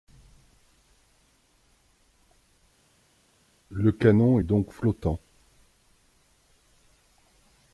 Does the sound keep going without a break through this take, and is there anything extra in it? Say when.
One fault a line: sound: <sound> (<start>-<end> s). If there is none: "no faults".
no faults